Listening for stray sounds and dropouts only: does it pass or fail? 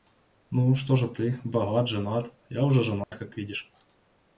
fail